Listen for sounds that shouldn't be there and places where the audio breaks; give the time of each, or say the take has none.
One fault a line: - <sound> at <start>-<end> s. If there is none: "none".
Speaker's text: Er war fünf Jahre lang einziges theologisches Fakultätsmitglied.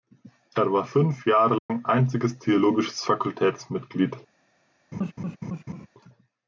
- dropout at 1.6-1.7 s
- laugh at 4.9-5.9 s